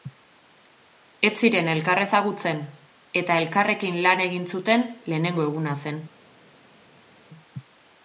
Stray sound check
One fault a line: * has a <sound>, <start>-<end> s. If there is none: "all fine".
all fine